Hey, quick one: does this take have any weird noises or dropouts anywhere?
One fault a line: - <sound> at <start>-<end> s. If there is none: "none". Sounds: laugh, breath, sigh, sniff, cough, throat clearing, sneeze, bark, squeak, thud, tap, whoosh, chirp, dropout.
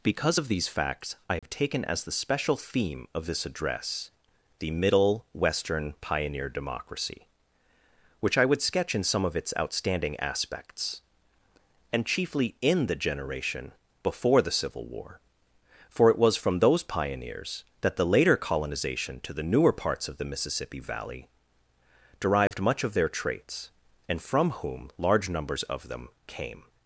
- dropout at 1.4-1.4 s
- dropout at 22.5-22.5 s